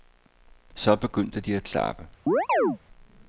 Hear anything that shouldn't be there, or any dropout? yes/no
yes